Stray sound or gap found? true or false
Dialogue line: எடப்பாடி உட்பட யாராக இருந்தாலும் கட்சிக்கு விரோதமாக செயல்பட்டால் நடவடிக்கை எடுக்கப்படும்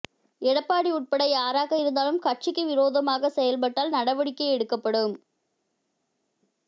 false